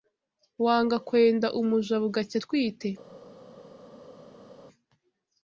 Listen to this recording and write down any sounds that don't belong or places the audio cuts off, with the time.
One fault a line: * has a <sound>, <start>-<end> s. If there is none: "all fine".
all fine